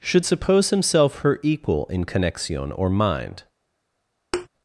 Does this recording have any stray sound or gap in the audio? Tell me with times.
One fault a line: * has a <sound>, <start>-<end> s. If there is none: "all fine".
* has a thud, 4.3-4.5 s